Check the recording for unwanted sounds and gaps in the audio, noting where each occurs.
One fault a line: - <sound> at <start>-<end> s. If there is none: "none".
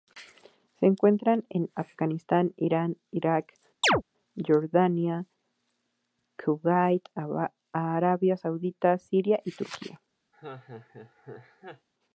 - chirp at 3.8-4.0 s
- laugh at 10.3-11.9 s